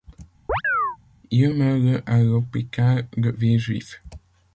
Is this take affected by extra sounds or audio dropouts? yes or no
yes